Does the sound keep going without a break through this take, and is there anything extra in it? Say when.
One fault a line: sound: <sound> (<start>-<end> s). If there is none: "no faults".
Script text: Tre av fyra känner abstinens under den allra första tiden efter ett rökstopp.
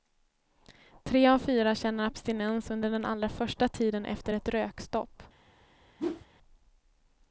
sound: whoosh (6.0-6.3 s)